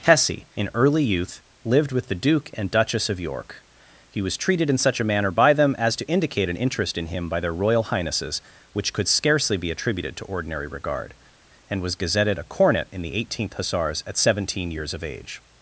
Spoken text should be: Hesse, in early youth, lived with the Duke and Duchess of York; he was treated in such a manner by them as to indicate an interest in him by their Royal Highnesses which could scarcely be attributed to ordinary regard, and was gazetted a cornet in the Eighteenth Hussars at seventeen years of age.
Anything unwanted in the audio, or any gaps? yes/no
no